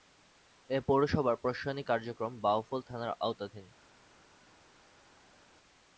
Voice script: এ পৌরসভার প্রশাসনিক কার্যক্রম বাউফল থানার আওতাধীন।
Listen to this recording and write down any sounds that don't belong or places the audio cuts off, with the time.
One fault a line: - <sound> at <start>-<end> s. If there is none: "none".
none